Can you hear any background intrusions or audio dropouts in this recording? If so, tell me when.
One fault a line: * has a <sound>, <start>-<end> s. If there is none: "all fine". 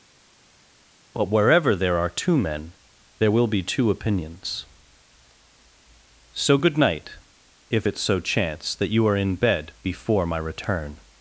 all fine